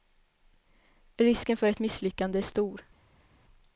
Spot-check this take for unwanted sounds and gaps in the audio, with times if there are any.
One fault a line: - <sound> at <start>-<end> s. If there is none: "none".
none